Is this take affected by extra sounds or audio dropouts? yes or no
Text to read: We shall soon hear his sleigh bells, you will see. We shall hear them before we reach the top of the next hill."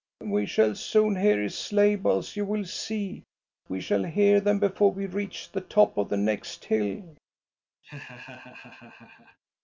yes